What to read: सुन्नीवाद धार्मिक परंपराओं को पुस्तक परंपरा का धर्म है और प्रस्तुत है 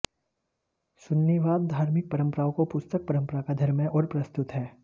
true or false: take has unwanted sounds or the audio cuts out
false